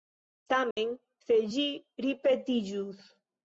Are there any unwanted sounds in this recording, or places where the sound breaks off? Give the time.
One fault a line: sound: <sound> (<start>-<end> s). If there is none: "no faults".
sound: dropout (0.7-0.8 s)